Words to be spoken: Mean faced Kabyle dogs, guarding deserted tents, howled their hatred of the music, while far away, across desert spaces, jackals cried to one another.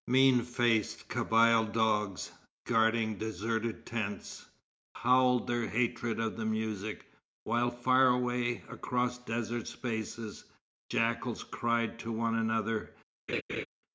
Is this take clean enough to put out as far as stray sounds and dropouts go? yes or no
no